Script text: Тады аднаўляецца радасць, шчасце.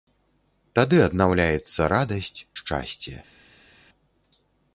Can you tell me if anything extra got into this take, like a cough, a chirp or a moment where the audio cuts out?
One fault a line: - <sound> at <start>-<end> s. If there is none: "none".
none